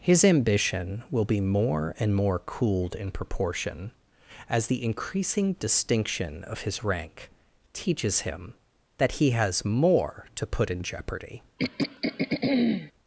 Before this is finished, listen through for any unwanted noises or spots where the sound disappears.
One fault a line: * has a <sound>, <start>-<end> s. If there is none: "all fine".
* has a throat clearing, 11.6-12.9 s